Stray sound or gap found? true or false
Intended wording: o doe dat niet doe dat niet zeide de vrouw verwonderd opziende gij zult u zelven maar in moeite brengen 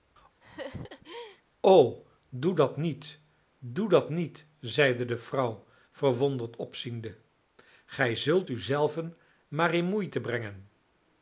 true